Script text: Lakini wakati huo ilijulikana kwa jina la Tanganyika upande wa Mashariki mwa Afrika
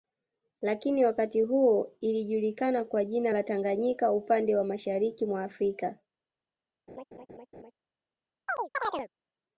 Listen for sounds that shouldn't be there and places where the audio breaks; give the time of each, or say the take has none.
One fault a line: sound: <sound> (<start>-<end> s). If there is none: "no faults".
sound: laugh (6.9-7.7 s)
sound: chirp (8.5-9.1 s)